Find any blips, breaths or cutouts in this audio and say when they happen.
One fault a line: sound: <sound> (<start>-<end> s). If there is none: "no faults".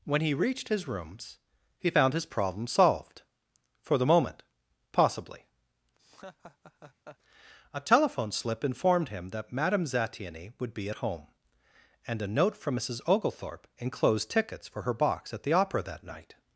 sound: laugh (6.0-7.2 s)